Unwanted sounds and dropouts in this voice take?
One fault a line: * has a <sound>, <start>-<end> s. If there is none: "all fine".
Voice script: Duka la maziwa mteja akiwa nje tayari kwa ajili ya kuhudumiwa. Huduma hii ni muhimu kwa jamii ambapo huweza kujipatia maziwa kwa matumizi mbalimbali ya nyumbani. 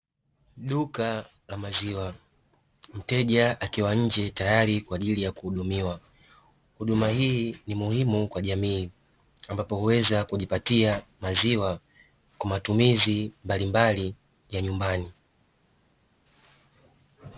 all fine